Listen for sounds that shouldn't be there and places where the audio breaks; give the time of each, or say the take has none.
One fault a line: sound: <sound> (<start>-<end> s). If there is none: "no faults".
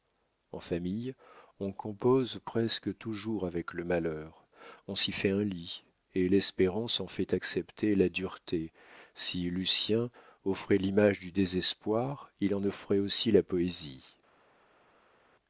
no faults